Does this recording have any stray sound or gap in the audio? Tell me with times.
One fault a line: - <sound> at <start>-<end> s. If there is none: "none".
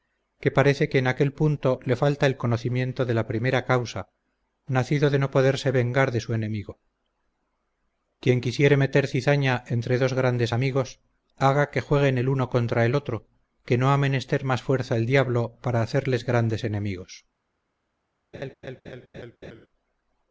- laugh at 18.3-19.7 s